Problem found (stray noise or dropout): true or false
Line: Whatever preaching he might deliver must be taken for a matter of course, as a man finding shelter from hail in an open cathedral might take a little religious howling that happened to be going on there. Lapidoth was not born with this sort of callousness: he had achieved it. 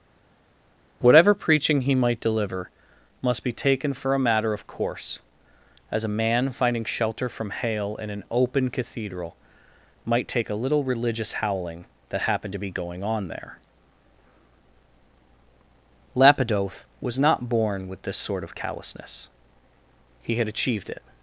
false